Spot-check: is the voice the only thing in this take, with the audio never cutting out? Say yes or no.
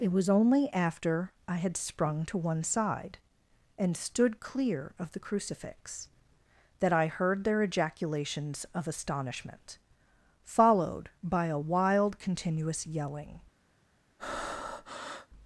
no